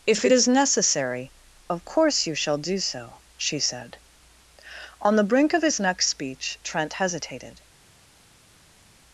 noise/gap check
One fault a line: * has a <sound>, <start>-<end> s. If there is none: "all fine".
all fine